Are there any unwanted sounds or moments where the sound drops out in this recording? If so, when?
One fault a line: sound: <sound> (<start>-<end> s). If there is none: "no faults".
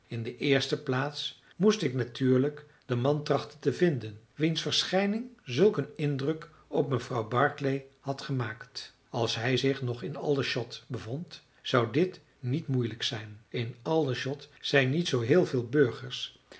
no faults